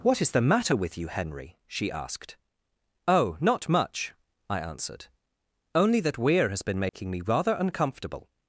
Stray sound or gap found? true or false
true